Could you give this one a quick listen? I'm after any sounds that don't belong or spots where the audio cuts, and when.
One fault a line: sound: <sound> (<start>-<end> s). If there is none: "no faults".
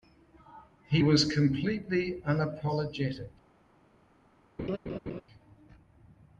sound: laugh (4.6-5.2 s)